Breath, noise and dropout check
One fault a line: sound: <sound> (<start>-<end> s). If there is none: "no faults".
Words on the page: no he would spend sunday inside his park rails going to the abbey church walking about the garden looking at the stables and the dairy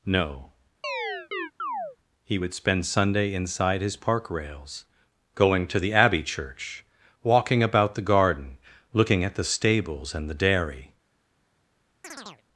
sound: chirp (0.8-2.0 s)
sound: chirp (12.0-12.4 s)